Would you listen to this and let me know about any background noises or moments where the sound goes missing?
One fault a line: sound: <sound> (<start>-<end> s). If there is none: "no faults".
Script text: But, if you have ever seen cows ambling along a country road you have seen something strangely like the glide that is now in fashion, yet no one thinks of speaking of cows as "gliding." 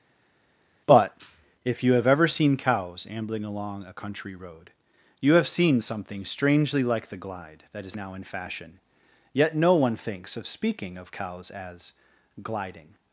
no faults